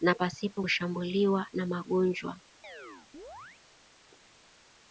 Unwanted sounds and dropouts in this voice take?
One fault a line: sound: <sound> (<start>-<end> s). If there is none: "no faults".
sound: chirp (2.6-3.6 s)